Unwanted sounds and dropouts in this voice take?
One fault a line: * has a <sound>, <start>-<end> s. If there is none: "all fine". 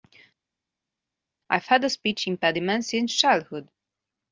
all fine